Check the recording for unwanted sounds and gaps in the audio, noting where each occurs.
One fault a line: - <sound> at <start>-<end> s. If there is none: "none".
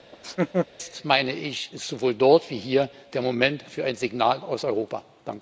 - laugh at 0.1-0.7 s